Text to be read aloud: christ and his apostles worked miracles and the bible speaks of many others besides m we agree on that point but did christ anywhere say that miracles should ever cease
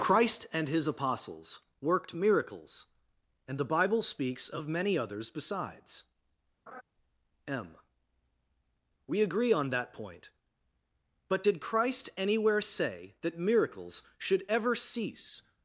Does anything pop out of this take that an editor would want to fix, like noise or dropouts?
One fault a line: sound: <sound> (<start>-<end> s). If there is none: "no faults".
sound: laugh (6.7-6.8 s)